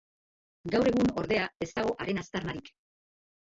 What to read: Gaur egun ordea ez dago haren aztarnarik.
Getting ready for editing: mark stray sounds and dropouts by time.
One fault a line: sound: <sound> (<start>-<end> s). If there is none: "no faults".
no faults